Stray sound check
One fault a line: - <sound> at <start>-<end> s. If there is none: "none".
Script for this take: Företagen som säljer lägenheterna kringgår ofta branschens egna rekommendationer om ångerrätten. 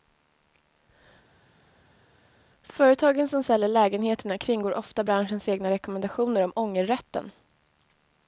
none